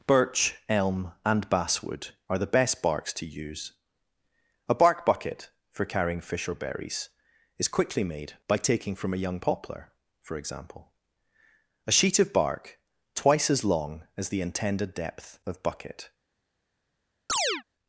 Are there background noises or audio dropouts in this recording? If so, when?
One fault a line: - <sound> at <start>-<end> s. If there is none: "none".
- chirp at 17.3-17.6 s